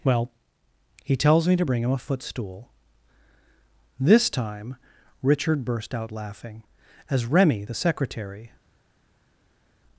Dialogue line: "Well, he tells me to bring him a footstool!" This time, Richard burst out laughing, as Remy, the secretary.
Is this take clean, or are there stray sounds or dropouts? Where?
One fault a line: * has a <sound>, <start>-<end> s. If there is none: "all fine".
all fine